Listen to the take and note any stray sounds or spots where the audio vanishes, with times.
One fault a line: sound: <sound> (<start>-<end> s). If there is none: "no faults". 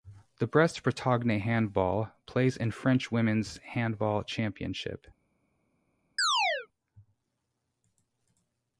sound: chirp (6.2-6.7 s)